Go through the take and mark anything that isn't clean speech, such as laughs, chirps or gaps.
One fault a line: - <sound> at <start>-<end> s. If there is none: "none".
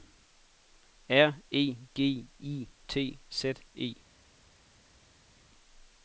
none